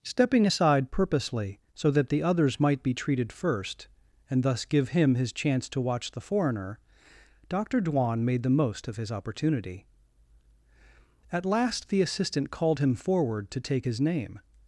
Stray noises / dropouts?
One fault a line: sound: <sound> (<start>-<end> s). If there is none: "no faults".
no faults